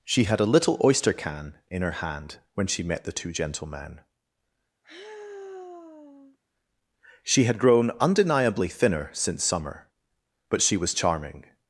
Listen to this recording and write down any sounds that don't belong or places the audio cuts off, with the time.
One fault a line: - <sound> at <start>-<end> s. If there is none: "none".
- sigh at 4.8-6.4 s